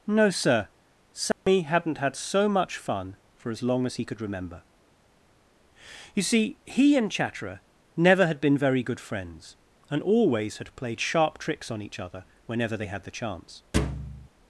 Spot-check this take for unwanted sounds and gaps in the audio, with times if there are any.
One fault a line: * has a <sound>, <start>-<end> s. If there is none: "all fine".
* has a dropout, 1.3-1.5 s
* has a thud, 13.7-14.3 s